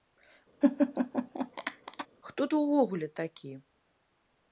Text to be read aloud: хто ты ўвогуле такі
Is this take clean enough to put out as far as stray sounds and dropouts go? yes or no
no